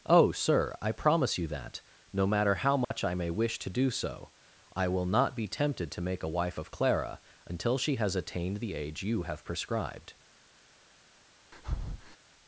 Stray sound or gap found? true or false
true